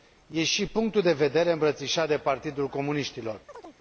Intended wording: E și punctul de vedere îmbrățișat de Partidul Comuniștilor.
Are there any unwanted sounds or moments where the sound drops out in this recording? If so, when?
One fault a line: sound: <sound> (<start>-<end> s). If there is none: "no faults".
sound: chirp (3.5-3.8 s)